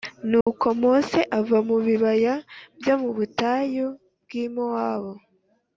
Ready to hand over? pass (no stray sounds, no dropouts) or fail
fail